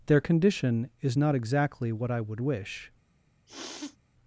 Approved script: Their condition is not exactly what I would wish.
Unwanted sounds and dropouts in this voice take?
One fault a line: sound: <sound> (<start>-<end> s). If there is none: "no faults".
sound: sniff (3.5-4.0 s)